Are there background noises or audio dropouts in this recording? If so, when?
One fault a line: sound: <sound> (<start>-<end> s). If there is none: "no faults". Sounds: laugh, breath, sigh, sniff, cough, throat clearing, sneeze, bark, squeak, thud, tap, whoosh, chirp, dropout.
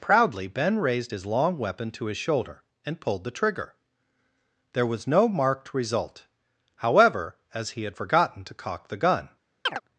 sound: chirp (9.7-9.8 s)